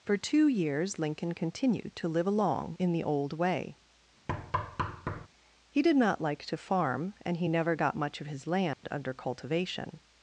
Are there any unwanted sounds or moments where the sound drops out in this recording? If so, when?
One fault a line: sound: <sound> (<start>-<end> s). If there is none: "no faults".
sound: thud (4.3-5.3 s)
sound: dropout (8.7-8.8 s)